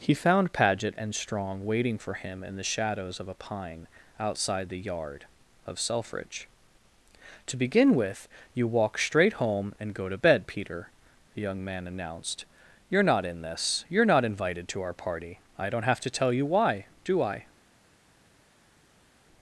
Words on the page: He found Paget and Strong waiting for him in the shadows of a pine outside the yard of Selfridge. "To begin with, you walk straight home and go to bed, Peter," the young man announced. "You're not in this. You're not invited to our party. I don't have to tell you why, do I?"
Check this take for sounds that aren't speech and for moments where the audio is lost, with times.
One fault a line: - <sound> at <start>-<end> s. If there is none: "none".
none